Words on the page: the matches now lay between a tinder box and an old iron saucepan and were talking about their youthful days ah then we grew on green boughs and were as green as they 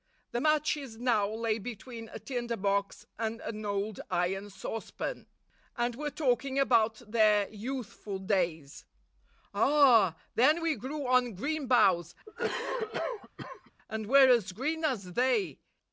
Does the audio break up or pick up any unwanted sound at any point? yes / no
yes